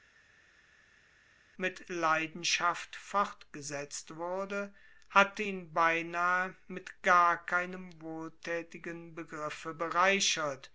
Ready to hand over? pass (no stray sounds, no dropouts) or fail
pass